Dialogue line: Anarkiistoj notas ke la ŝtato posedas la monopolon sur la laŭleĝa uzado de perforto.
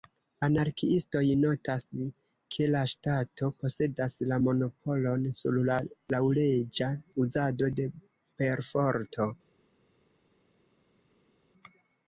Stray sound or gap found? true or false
false